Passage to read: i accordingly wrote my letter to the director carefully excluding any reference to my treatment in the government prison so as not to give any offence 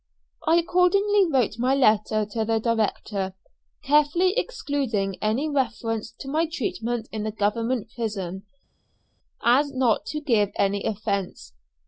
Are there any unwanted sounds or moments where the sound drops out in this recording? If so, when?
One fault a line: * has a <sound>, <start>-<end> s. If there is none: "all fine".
all fine